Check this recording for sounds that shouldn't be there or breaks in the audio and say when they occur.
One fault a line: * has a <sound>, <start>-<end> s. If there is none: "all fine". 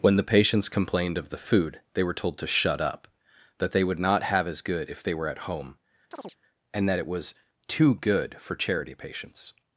* has a chirp, 6.1-6.4 s